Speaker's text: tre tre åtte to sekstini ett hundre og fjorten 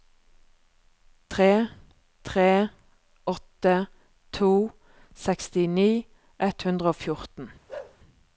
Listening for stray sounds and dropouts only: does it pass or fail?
fail